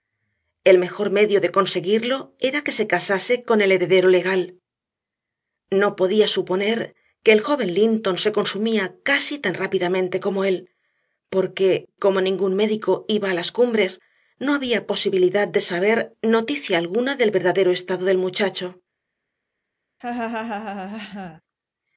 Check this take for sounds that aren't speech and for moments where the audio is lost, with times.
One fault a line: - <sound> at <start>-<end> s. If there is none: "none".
- laugh at 20.0-21.4 s